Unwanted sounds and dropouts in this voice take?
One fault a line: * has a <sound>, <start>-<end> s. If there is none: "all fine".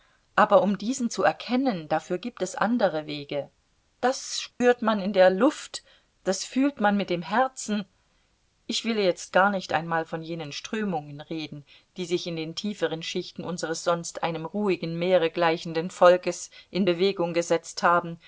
* has a dropout, 4.5-4.6 s